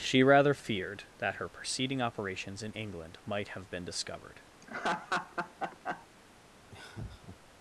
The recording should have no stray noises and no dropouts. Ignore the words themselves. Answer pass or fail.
fail